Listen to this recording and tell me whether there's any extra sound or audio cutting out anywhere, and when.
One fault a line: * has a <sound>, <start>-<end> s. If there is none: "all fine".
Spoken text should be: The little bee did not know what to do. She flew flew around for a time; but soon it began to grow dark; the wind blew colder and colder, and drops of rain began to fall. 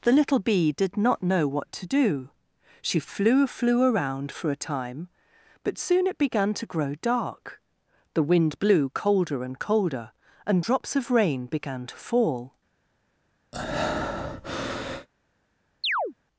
* has a breath, 13.5-15.1 s
* has a chirp, 15.8-16.1 s